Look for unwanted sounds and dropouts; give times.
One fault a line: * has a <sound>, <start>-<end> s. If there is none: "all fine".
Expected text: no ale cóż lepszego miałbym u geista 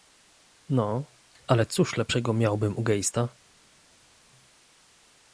all fine